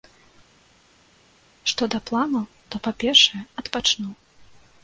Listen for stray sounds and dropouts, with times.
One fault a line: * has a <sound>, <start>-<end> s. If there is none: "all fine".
all fine